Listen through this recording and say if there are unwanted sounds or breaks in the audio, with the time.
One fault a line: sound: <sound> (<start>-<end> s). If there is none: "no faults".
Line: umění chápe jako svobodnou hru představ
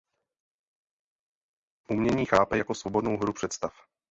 no faults